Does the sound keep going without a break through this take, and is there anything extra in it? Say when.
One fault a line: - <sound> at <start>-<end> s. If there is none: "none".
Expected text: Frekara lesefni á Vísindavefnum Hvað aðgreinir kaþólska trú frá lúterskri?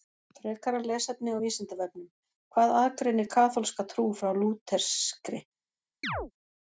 - chirp at 6.0-6.3 s